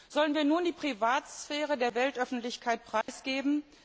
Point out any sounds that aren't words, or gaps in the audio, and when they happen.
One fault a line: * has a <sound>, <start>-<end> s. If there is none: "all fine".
* has a dropout, 3.0-3.1 s